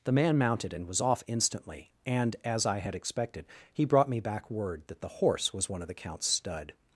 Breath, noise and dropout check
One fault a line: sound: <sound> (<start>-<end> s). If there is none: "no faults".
no faults